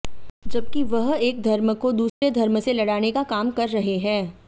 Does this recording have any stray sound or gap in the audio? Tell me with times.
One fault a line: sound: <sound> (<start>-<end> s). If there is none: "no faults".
sound: dropout (2.1-2.2 s)